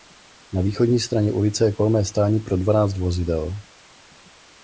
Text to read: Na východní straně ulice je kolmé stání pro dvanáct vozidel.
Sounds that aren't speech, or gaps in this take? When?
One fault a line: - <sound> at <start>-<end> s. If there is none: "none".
none